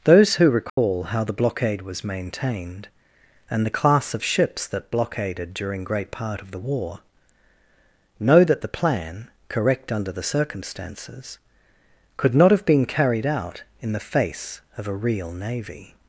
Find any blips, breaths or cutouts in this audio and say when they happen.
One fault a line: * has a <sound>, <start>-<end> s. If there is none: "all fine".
* has a dropout, 0.7-0.8 s